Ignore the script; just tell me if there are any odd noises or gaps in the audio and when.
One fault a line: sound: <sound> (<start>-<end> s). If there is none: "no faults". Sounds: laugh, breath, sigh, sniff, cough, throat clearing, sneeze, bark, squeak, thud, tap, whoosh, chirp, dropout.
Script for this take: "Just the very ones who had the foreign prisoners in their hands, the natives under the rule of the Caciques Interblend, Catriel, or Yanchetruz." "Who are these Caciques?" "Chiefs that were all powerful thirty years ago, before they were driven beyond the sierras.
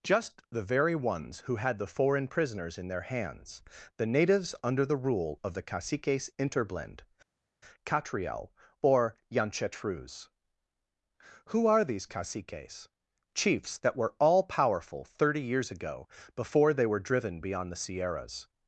no faults